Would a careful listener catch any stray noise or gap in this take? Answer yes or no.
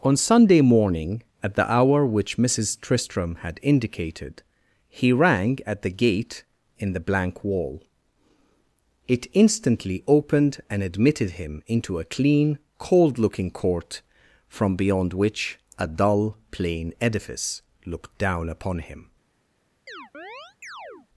yes